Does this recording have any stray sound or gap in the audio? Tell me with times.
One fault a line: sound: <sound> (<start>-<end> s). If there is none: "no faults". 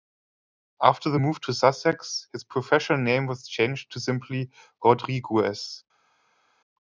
no faults